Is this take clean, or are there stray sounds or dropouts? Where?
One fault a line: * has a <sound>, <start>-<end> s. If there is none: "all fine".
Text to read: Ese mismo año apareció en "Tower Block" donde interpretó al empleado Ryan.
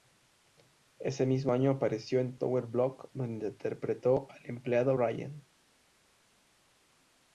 all fine